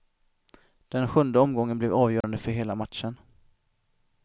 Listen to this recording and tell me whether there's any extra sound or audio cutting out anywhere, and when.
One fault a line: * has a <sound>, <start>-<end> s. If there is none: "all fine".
* has a dropout, 2.2-2.2 s